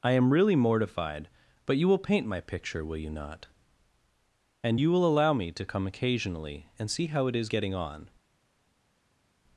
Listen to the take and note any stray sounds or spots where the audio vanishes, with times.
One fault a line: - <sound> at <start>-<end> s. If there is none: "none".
none